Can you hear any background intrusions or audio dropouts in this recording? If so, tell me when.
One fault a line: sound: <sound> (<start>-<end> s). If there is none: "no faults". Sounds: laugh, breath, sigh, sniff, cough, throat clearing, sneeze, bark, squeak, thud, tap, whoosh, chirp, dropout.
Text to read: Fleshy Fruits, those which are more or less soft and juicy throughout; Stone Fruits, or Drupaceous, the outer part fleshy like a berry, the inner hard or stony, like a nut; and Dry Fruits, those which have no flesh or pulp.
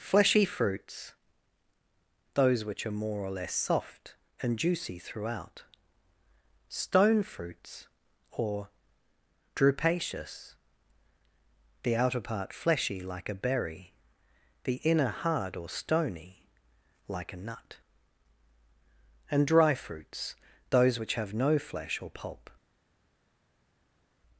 no faults